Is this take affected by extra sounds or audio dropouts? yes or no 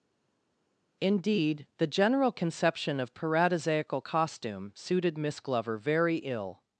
no